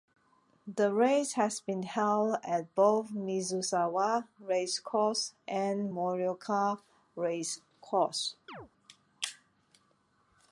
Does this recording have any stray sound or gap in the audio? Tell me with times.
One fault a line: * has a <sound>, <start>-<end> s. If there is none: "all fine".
* has a chirp, 8.5-8.7 s